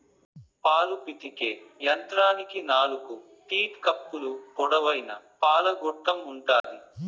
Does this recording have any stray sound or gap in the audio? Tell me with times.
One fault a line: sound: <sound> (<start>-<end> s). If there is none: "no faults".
sound: dropout (6.6-6.6 s)